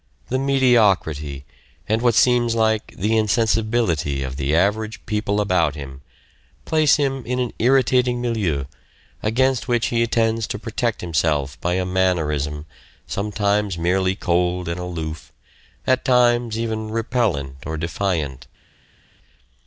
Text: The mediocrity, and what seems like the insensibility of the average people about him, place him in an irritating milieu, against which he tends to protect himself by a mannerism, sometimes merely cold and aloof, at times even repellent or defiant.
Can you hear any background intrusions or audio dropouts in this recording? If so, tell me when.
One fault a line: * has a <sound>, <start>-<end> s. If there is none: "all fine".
all fine